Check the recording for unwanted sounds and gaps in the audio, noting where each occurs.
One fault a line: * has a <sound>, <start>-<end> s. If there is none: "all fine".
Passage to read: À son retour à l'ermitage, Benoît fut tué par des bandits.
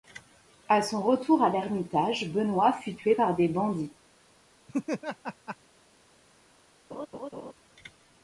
* has a laugh, 4.7-5.6 s
* has a laugh, 6.9-7.5 s